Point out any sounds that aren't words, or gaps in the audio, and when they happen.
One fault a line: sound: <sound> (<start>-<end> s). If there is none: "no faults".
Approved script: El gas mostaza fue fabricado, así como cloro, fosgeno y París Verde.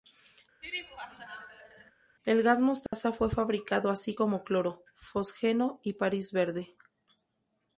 sound: laugh (0.6-1.9 s)
sound: dropout (2.9-2.9 s)